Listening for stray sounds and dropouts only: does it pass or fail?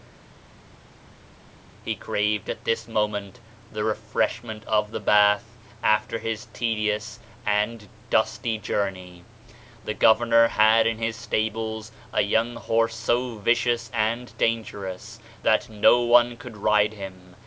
pass